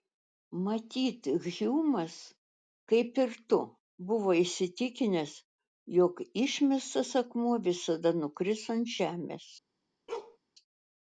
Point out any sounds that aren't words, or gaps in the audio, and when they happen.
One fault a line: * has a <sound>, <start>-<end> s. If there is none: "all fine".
* has a bark, 10.1-10.4 s